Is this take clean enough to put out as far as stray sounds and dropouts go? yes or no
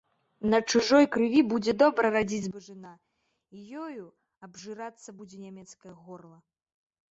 yes